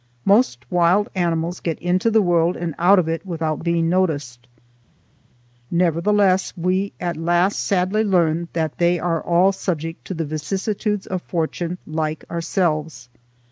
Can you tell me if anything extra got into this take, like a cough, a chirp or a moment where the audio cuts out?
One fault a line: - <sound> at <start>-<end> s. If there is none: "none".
none